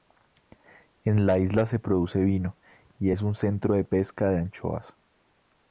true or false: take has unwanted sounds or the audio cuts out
false